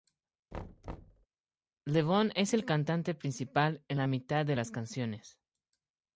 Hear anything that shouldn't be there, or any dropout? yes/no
yes